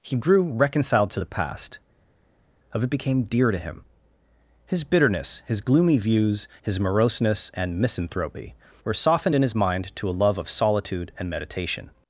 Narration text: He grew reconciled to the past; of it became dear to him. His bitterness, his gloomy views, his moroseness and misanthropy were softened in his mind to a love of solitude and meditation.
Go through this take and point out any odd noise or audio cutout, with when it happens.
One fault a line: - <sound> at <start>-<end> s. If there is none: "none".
none